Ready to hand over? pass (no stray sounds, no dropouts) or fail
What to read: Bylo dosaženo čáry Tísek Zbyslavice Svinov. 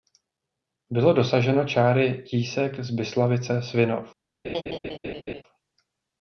fail